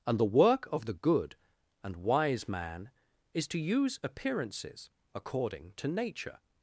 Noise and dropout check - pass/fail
pass